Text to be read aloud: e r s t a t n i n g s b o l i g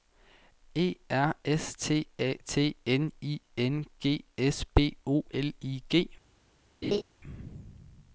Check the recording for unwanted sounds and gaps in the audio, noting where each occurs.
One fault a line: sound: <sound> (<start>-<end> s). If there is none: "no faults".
sound: laugh (6.8-7.0 s)